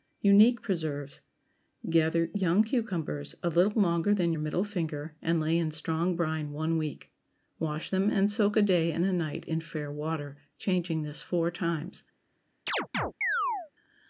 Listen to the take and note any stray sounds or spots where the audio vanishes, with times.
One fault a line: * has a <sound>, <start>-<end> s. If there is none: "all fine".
* has a chirp, 12.7-13.7 s